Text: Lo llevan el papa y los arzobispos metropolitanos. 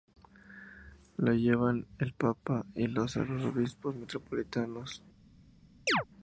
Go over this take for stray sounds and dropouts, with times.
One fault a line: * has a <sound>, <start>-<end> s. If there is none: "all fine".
* has a chirp, 5.9-6.0 s